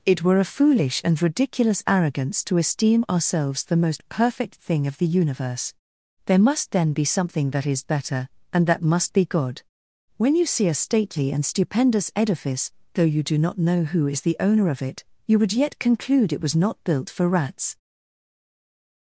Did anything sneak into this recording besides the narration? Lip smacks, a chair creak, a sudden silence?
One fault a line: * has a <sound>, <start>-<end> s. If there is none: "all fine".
all fine